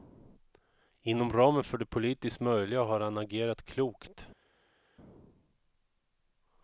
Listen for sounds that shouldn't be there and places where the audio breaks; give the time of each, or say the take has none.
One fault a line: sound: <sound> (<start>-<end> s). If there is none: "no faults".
no faults